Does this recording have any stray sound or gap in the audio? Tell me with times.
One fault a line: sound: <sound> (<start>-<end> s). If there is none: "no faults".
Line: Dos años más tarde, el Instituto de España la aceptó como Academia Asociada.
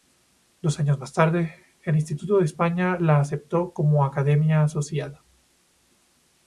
no faults